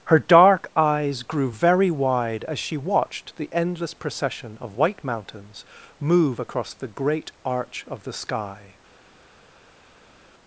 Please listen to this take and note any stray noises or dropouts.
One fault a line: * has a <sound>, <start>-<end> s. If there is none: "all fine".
all fine